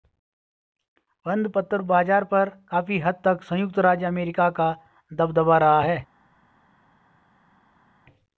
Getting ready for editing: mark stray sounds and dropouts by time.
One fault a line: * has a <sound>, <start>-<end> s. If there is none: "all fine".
all fine